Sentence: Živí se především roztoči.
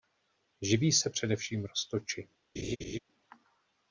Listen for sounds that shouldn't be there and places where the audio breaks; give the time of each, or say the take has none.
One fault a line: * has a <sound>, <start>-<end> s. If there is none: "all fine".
* has a laugh, 2.6-3.0 s